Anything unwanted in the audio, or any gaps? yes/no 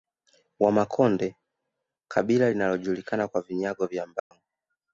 yes